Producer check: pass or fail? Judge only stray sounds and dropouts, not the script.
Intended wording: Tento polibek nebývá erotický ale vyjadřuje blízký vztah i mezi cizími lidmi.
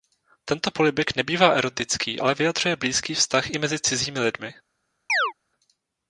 fail